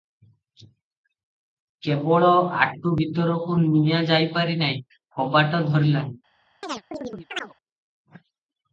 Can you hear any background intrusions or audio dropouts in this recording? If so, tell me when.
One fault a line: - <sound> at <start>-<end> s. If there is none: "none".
- chirp at 6.6-7.5 s